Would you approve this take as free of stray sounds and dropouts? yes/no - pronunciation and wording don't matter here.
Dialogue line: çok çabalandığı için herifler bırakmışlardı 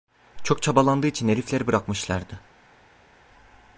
yes